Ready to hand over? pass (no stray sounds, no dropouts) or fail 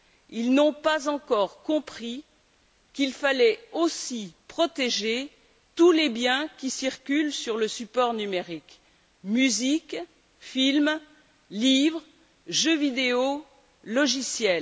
pass